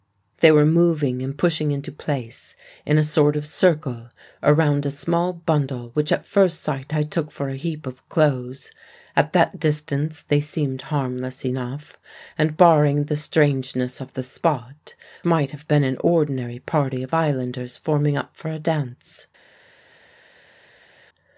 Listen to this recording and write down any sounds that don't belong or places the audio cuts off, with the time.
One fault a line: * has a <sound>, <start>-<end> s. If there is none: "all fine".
all fine